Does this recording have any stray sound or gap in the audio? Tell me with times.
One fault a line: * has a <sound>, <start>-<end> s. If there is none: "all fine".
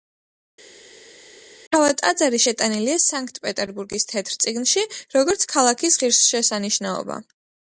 all fine